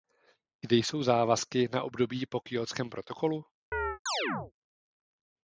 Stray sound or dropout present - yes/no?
yes